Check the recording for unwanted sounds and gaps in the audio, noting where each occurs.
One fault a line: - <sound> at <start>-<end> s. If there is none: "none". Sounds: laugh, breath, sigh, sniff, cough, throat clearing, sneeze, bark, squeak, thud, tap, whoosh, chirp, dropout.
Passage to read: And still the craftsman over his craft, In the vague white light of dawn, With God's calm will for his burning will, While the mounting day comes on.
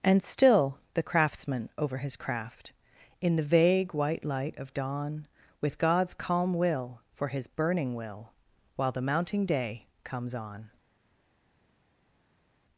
none